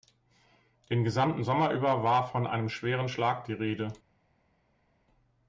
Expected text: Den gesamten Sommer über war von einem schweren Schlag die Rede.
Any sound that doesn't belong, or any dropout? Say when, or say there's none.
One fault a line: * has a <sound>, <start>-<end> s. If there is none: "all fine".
all fine